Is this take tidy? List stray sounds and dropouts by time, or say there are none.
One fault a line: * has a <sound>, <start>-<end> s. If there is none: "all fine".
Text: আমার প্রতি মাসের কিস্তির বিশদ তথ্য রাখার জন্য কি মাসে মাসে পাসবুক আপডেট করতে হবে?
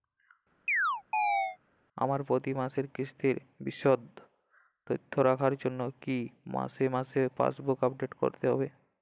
* has a chirp, 0.7-1.6 s